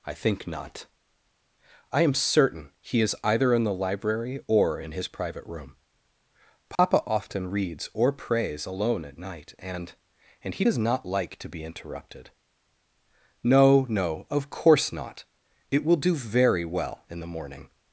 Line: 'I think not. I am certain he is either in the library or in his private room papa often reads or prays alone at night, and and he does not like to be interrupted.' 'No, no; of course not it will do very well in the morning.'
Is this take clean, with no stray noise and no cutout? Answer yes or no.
no